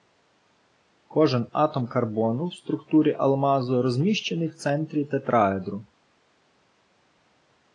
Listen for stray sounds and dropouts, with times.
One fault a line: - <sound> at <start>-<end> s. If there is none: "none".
none